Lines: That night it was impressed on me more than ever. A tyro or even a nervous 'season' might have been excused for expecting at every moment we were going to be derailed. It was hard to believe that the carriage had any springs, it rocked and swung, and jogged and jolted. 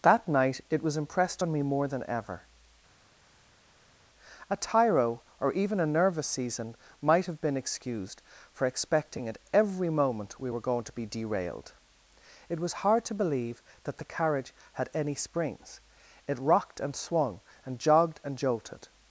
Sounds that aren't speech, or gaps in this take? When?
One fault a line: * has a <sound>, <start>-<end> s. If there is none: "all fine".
all fine